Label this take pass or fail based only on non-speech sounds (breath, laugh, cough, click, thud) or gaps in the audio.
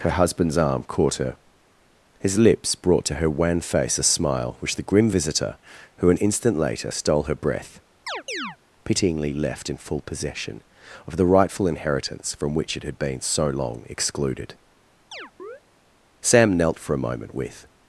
fail